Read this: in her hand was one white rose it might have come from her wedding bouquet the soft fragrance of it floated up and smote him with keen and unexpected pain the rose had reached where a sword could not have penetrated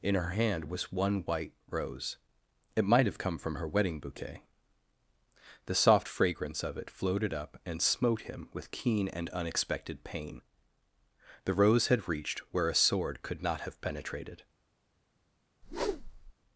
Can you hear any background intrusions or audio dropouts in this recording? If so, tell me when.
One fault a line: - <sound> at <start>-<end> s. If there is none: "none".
- whoosh at 15.6-16.3 s